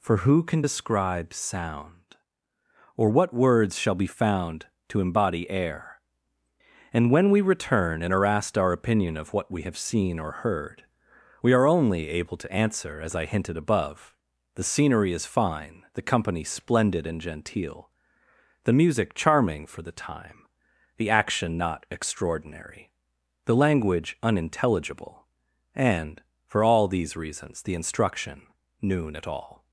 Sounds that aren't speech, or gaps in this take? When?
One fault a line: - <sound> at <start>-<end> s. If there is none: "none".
none